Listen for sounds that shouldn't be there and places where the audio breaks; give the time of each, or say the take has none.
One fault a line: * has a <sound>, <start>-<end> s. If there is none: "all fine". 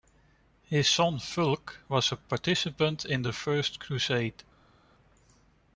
all fine